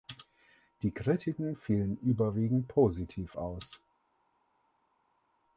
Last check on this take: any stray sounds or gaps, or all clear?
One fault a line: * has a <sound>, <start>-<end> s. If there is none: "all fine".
all fine